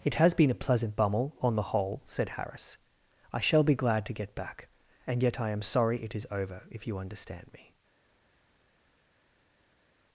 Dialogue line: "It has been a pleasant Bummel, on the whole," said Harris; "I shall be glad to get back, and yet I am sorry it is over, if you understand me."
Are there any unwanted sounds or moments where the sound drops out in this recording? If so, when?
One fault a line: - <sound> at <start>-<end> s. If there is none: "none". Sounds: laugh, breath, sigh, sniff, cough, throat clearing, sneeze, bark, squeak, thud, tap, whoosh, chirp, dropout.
none